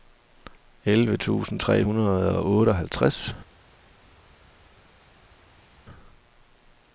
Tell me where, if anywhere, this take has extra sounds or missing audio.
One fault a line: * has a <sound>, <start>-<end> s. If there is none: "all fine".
all fine